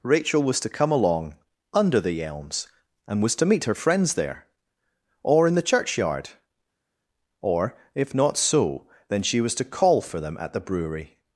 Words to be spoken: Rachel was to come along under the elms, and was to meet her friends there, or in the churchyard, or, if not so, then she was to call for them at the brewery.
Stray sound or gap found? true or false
false